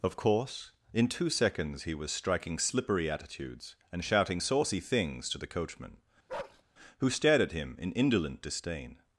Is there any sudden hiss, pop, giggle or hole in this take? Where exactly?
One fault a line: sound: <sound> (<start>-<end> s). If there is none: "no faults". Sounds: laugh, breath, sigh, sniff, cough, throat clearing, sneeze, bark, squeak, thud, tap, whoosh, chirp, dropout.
sound: bark (6.3-6.6 s)